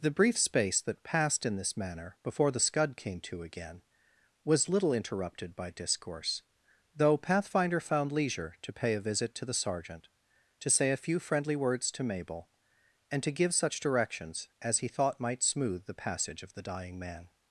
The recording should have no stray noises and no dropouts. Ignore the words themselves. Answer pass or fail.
pass